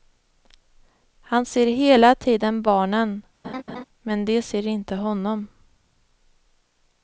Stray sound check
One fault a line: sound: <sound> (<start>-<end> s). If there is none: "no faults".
sound: laugh (3.4-3.8 s)